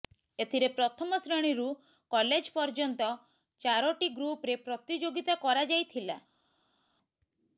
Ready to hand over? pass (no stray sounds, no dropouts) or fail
pass